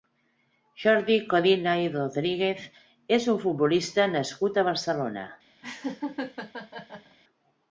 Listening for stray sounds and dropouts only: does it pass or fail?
fail